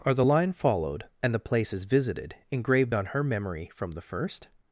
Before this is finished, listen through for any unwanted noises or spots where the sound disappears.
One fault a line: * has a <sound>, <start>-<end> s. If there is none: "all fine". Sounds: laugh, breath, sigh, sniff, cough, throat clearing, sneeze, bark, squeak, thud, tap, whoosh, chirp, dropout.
all fine